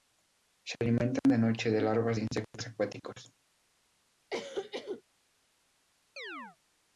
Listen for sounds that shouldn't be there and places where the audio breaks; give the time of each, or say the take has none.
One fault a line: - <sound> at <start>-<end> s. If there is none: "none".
- cough at 4.3-5.0 s
- chirp at 6.2-6.6 s